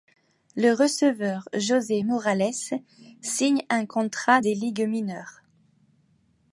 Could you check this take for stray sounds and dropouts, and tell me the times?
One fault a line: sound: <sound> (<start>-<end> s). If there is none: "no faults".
no faults